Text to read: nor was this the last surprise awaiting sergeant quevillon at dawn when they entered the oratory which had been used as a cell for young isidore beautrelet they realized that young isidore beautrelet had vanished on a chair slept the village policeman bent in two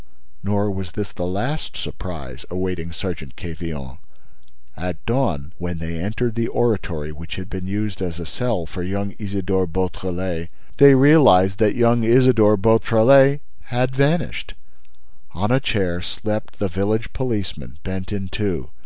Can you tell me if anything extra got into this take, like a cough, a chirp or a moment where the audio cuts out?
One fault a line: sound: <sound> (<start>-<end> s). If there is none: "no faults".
no faults